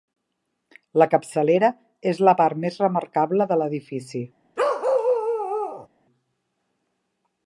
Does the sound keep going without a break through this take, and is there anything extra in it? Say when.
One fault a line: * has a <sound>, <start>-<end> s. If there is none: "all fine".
* has a bark, 4.6-5.9 s